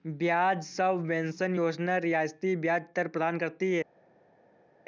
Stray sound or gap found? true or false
false